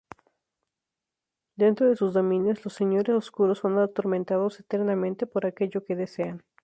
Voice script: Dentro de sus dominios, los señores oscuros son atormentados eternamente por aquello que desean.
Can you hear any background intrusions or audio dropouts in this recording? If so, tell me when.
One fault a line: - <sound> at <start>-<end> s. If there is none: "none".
none